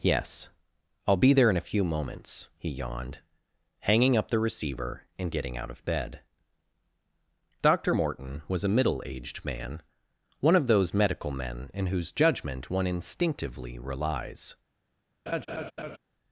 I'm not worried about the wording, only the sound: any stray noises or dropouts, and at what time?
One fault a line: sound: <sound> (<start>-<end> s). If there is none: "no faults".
sound: laugh (15.3-16.0 s)